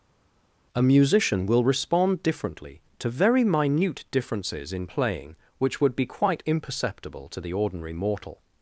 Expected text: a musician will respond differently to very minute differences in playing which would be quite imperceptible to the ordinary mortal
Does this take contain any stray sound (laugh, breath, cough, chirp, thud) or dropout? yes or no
no